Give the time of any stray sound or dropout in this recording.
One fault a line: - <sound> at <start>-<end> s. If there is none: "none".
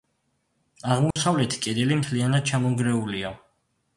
- dropout at 1.1-1.2 s